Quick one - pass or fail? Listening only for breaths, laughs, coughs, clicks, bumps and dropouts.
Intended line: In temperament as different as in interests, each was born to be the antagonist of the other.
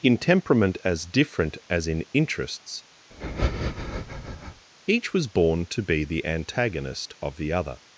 fail